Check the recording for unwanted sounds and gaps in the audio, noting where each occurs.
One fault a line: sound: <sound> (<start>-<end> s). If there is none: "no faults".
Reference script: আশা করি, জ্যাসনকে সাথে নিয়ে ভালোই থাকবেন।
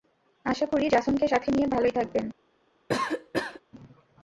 sound: cough (2.9-3.6 s)